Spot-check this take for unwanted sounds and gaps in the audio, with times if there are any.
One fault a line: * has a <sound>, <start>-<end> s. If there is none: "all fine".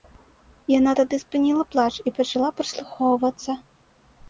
all fine